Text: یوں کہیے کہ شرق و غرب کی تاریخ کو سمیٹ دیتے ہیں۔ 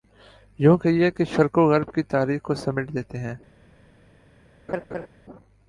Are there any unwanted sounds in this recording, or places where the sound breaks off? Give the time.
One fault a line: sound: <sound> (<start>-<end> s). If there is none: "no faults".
sound: laugh (4.7-5.1 s)